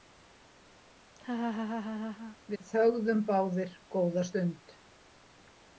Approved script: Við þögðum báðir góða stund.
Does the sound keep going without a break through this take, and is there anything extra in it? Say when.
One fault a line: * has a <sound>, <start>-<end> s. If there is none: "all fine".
* has a laugh, 1.2-2.4 s